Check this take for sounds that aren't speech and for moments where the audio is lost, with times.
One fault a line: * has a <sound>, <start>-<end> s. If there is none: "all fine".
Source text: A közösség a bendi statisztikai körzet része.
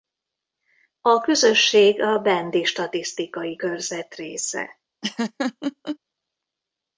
* has a laugh, 5.0-6.0 s